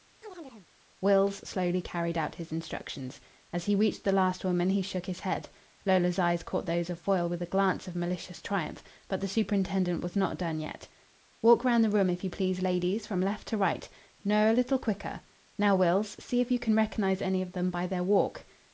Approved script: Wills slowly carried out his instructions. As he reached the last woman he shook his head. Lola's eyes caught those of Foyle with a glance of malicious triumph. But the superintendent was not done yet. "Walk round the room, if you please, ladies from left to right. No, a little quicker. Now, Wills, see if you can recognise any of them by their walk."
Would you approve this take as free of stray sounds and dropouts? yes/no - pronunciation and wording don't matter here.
no